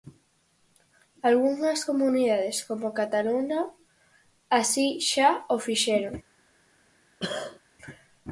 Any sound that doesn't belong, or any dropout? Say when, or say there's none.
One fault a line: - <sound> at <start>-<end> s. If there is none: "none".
- cough at 7.2-7.6 s